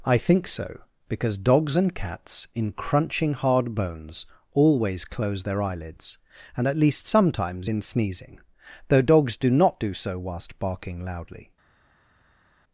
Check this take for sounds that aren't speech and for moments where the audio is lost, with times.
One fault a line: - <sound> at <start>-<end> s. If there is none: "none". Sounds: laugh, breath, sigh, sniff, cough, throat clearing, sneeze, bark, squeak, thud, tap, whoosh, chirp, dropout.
none